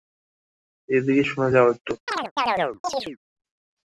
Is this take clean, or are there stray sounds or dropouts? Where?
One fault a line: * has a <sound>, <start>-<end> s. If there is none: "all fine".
* has a chirp, 2.1-3.2 s